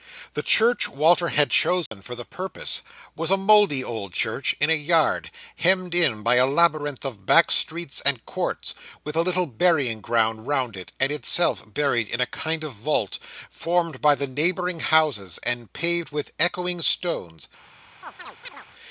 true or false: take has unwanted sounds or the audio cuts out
true